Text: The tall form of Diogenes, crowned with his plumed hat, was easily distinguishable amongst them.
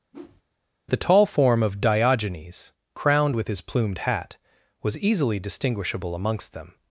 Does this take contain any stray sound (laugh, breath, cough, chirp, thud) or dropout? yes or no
yes